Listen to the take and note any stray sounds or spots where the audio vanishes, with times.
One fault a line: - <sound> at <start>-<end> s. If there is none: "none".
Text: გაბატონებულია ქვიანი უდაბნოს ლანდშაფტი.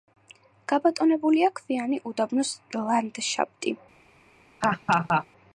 - laugh at 4.6-5.3 s